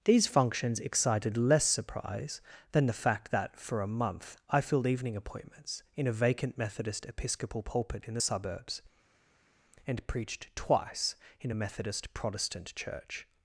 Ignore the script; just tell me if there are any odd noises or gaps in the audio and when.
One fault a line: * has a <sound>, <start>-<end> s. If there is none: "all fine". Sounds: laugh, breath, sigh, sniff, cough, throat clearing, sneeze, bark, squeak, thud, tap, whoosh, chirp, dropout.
all fine